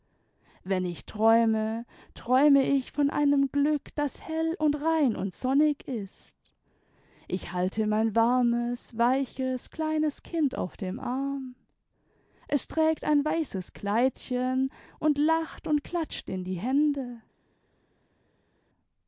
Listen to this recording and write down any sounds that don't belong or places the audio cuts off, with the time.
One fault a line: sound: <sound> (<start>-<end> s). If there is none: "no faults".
no faults